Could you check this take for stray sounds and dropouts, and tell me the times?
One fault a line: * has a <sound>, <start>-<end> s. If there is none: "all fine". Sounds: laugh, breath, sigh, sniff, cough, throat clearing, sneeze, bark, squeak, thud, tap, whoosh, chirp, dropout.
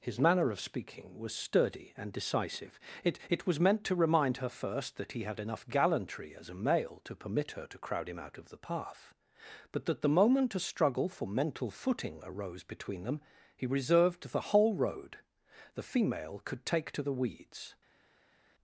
all fine